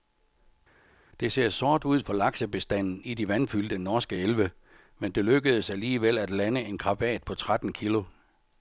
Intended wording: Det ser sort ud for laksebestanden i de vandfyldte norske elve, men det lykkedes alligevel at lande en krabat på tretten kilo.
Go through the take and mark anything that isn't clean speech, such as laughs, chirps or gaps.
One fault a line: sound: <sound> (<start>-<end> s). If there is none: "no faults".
no faults